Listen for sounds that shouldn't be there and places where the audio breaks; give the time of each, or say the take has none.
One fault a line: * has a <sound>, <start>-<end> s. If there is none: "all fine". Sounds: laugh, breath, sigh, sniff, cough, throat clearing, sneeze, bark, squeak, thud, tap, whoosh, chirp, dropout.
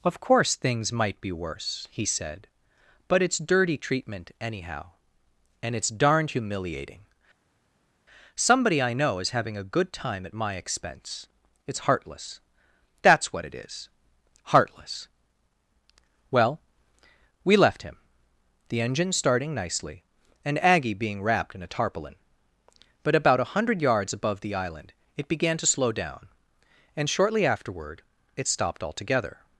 all fine